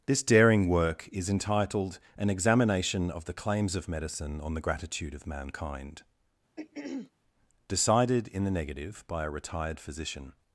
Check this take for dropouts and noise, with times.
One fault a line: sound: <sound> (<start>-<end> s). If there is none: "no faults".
sound: throat clearing (6.6-7.1 s)